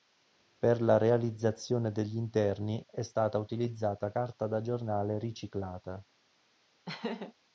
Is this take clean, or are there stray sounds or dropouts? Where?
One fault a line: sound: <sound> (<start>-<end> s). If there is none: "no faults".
sound: laugh (6.9-7.3 s)